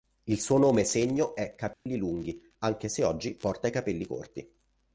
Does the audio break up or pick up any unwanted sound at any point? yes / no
yes